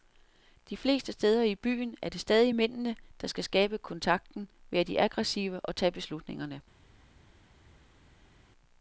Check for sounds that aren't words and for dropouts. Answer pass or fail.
pass